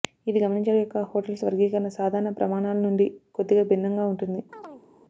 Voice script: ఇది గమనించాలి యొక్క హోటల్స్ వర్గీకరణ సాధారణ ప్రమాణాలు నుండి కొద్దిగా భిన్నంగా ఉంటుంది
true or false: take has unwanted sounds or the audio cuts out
true